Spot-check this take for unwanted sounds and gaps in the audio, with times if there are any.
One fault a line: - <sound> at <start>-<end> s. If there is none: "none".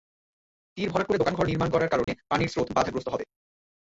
- dropout at 2.0-2.1 s